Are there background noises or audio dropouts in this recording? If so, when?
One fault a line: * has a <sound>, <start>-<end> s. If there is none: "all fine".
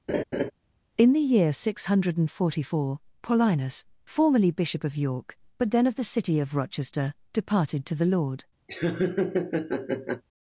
* has a laugh, 0.1-0.5 s
* has a laugh, 8.7-10.2 s